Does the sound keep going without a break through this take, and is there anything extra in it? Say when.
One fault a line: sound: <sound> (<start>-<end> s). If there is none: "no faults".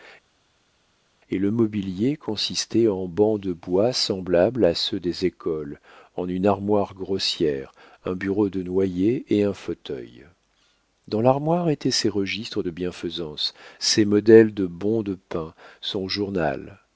no faults